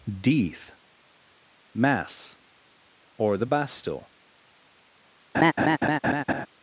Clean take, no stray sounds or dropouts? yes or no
no